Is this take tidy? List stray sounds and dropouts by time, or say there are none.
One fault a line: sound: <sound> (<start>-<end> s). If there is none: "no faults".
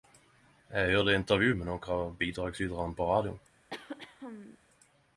sound: throat clearing (3.7-4.6 s)